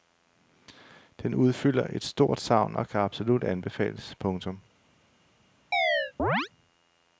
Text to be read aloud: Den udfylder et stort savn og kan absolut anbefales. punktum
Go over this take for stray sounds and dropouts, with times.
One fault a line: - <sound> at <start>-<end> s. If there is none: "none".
- chirp at 5.7-6.5 s